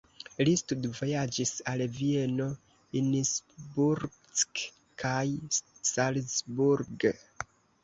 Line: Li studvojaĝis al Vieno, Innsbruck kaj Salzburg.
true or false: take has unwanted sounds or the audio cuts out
false